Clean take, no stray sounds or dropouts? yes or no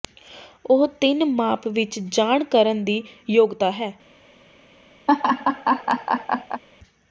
no